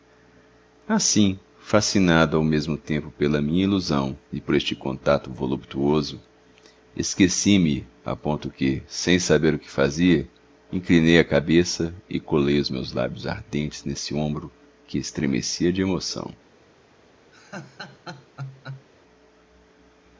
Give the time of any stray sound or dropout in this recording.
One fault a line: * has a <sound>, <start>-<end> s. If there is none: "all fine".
* has a laugh, 17.3-18.9 s